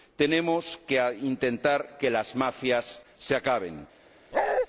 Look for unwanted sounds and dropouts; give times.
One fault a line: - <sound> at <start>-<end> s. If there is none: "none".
- bark at 4.3-4.7 s